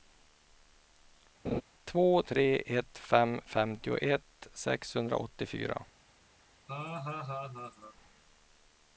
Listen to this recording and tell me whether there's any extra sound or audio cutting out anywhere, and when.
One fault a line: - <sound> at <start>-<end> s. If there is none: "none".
- laugh at 1.4-1.6 s
- laugh at 6.7-8.0 s